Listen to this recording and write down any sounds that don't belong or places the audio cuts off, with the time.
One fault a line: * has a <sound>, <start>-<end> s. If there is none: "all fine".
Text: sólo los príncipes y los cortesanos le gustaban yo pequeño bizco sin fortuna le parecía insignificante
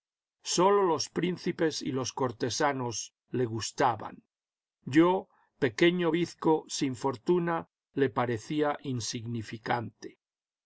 all fine